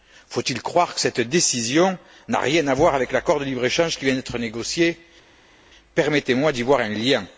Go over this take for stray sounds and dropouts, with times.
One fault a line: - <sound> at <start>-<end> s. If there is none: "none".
none